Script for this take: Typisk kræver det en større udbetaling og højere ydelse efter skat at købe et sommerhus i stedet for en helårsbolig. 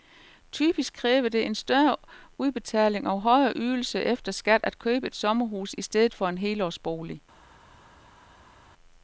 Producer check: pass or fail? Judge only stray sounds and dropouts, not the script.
pass